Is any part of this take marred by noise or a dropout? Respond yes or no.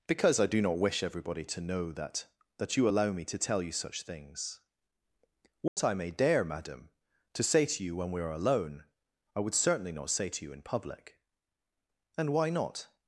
yes